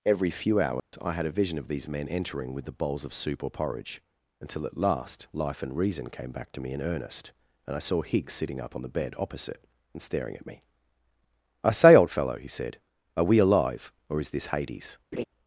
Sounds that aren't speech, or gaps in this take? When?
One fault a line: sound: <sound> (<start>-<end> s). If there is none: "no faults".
sound: dropout (0.8-0.9 s)
sound: laugh (15.1-15.2 s)